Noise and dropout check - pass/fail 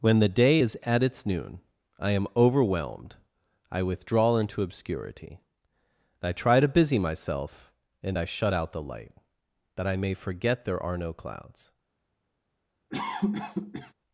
fail